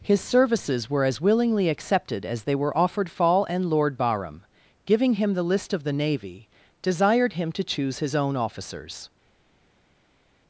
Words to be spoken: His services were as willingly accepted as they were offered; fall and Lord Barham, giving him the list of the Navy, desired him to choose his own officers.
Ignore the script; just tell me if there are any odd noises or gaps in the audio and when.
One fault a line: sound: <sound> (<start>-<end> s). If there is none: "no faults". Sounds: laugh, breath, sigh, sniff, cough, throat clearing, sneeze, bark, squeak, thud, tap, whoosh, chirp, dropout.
no faults